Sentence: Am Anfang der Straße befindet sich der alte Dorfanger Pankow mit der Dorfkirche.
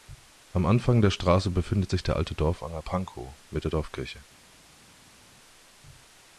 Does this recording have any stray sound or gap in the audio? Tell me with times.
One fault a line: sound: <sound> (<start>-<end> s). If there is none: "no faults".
no faults